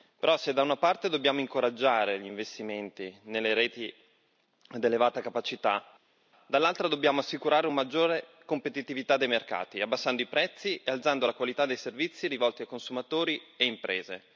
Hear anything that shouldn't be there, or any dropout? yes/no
no